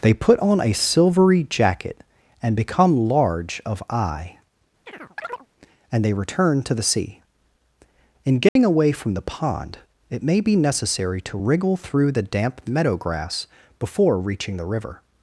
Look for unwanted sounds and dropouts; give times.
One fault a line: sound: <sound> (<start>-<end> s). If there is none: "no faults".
sound: chirp (4.9-5.5 s)
sound: dropout (8.5-8.6 s)